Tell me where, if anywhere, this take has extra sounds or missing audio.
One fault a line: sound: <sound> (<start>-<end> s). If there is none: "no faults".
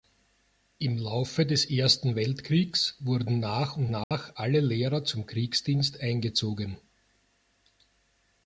sound: dropout (4.0-4.1 s)